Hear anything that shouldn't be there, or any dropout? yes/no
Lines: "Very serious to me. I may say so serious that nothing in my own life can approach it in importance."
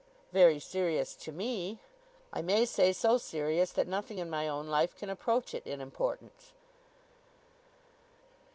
no